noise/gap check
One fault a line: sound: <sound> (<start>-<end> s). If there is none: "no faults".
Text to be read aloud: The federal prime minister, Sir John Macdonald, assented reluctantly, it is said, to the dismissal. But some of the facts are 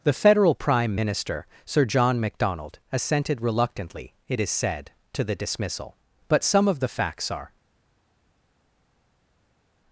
no faults